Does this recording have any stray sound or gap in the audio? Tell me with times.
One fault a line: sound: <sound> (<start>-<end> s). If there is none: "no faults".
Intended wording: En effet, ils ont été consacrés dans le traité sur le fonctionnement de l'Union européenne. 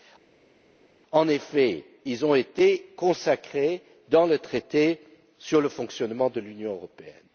no faults